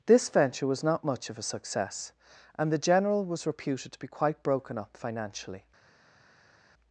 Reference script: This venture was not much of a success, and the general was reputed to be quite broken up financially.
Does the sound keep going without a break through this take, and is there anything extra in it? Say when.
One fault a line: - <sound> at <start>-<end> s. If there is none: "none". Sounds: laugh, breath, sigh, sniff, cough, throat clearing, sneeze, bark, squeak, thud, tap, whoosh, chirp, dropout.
none